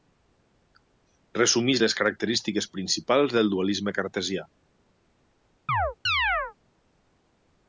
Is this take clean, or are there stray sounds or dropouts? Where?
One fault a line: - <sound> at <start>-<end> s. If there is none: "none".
- chirp at 5.7-6.5 s